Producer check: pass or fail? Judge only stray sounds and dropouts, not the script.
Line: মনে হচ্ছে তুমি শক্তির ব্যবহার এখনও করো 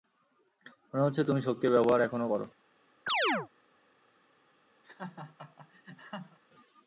fail